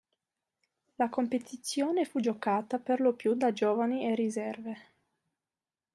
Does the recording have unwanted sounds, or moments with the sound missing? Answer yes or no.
no